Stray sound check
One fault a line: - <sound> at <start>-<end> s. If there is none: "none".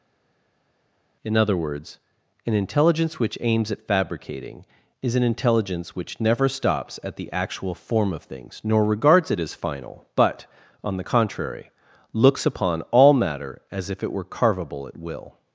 none